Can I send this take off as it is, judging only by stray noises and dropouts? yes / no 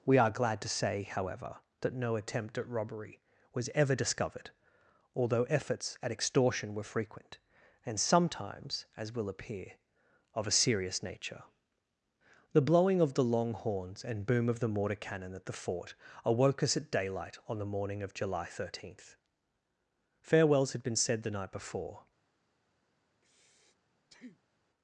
no